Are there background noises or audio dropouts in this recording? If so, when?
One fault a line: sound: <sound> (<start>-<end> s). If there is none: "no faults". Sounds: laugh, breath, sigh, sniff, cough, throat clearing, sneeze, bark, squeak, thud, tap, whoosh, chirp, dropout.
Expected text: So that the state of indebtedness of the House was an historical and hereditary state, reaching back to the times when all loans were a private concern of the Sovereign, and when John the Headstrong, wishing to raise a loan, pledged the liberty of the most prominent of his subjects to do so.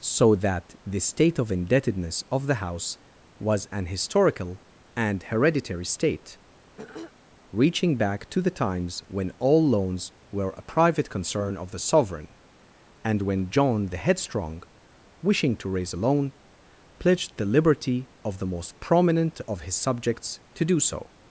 sound: throat clearing (6.8-7.1 s)